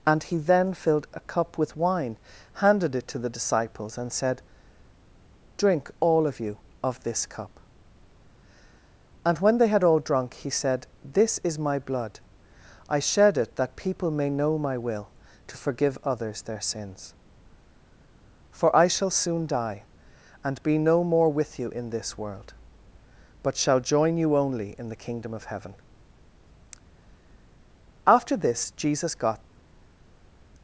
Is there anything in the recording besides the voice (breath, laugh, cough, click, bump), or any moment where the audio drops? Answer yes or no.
no